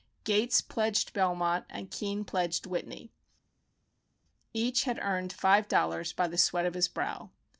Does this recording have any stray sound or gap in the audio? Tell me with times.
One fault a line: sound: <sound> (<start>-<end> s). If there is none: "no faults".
no faults